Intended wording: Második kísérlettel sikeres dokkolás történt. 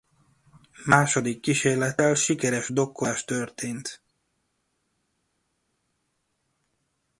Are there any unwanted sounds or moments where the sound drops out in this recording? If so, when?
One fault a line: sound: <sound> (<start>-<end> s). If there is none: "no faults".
no faults